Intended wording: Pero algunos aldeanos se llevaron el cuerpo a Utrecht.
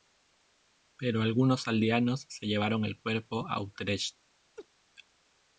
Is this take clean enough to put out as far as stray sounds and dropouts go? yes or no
no